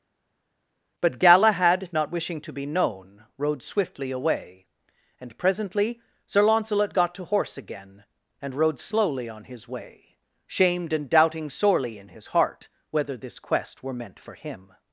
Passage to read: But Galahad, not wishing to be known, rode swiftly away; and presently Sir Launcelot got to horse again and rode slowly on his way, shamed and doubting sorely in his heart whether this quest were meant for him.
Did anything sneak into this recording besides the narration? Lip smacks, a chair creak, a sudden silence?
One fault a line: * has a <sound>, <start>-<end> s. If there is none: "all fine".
all fine